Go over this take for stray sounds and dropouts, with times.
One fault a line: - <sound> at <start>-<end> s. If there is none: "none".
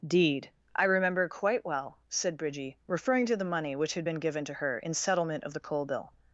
none